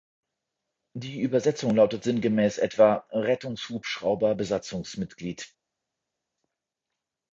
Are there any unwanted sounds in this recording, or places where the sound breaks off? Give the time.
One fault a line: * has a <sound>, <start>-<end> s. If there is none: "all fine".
all fine